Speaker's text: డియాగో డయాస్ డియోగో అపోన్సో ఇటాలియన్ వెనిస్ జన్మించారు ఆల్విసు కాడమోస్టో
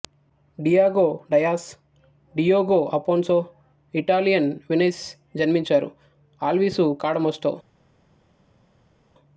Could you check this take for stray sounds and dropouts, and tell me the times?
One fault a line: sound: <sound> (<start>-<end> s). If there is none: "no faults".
no faults